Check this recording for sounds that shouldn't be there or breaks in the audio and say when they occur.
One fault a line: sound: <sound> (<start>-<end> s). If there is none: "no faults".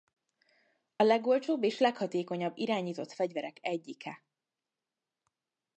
no faults